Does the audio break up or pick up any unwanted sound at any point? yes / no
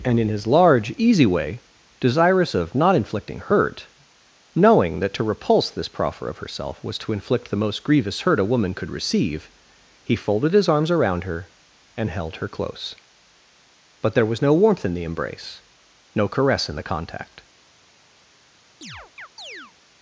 yes